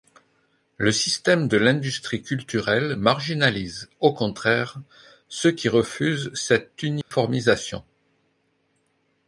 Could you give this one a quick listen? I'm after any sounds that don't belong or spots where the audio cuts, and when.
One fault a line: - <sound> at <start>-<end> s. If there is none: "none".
- dropout at 7.0-7.1 s